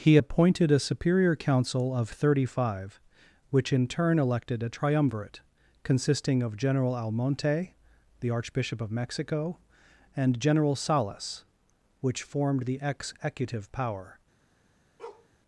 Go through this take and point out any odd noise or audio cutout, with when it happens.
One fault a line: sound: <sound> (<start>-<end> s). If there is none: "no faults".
sound: bark (15.0-15.3 s)